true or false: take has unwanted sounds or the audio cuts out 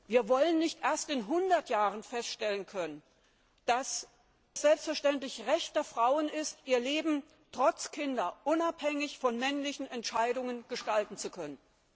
false